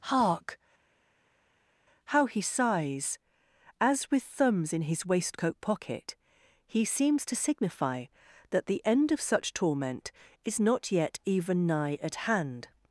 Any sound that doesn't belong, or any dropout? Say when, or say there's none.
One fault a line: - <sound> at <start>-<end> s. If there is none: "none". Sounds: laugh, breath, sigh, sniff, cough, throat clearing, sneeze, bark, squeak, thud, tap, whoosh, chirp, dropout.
none